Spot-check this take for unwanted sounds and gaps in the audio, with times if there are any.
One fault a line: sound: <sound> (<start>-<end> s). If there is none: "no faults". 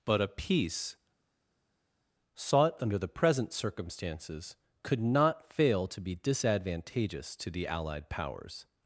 no faults